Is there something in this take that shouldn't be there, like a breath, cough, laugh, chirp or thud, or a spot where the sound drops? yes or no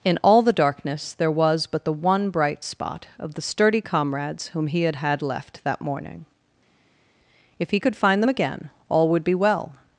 no